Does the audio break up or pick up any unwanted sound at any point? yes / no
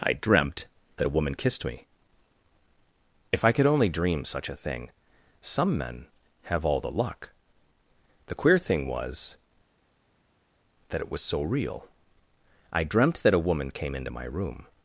no